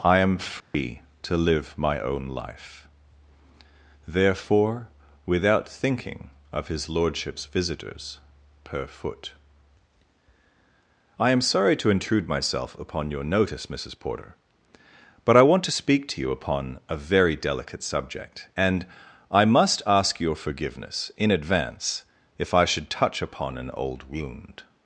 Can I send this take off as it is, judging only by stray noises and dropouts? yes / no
no